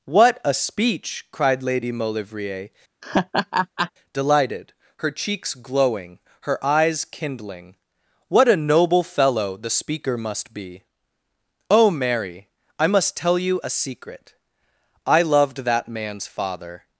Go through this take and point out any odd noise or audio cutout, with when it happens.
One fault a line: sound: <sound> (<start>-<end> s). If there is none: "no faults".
sound: laugh (3.0-3.9 s)